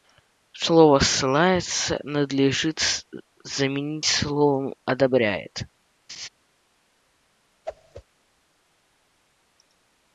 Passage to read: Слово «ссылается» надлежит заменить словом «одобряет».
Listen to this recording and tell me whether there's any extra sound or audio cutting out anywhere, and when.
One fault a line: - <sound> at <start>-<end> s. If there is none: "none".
- laugh at 6.1-6.3 s
- whoosh at 7.6-8.0 s